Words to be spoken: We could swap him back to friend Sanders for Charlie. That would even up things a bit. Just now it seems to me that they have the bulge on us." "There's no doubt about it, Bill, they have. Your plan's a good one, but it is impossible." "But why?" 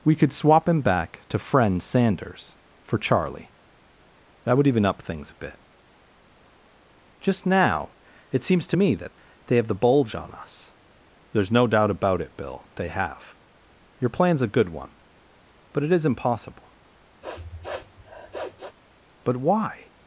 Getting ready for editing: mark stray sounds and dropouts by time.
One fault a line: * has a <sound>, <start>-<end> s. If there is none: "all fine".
* has a sniff, 17.2-18.8 s